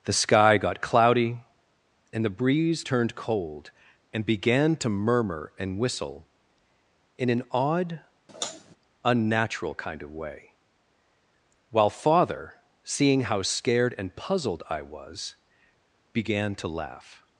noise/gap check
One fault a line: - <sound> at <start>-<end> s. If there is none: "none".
- sigh at 8.3-8.8 s